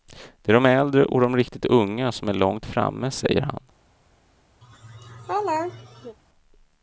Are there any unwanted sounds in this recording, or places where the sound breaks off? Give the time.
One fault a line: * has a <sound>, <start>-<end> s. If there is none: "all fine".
* has a laugh, 4.6-6.2 s